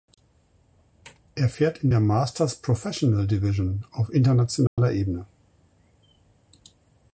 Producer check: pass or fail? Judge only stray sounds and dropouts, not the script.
fail